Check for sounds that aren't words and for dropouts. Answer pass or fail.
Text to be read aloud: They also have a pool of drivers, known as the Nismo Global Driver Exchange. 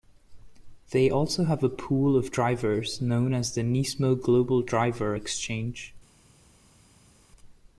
pass